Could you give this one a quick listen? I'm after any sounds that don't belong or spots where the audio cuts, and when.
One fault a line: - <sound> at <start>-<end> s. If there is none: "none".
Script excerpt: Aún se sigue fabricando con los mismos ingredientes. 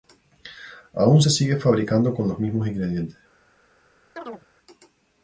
- chirp at 4.2-4.5 s